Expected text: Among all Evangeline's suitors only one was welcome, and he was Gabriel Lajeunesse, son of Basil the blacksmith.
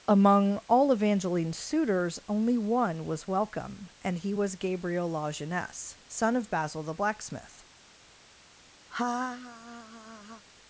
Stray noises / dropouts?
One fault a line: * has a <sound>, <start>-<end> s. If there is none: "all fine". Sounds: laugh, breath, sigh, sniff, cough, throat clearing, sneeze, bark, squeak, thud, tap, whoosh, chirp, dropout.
* has a laugh, 8.9-10.4 s